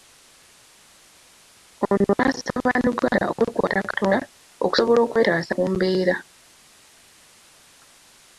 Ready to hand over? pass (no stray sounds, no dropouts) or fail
pass